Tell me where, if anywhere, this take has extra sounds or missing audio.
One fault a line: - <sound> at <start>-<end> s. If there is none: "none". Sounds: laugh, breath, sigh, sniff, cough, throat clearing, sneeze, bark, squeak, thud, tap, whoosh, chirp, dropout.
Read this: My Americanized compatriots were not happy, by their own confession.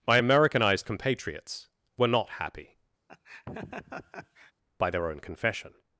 - laugh at 3.1-4.5 s